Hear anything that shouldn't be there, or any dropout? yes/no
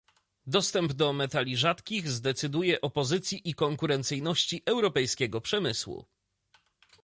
no